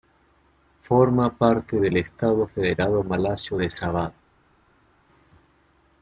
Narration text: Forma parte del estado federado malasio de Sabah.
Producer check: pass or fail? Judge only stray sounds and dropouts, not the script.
pass